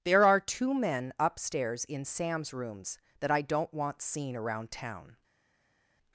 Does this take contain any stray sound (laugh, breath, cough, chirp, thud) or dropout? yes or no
no